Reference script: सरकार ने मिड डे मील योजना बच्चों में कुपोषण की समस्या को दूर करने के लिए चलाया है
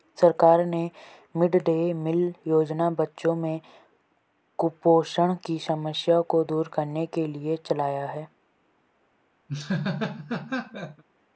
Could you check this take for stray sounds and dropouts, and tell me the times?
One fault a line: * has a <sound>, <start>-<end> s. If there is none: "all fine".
* has a laugh, 9.5-11.0 s